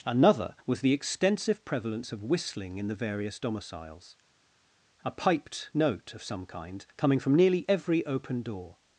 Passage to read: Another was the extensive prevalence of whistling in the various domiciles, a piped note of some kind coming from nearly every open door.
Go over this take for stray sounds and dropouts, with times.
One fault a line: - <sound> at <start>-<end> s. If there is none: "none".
none